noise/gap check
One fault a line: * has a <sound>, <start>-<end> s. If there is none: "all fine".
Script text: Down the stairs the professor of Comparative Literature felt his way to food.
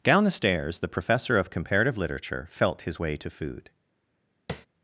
* has a tap, 4.5-4.7 s